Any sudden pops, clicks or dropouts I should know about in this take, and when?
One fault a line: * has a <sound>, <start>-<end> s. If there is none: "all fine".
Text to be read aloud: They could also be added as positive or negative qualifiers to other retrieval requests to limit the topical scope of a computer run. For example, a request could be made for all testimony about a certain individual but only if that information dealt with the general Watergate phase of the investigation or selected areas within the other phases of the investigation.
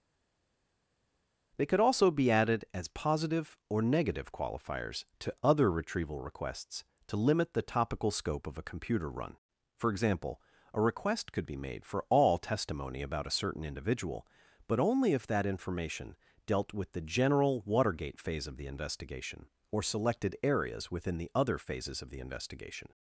all fine